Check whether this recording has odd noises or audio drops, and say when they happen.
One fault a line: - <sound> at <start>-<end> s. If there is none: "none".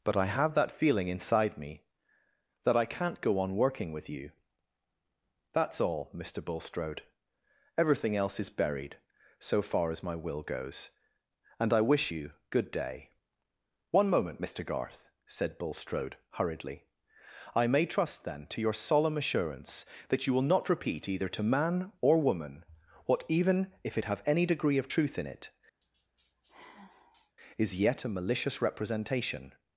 - sigh at 25.8-27.4 s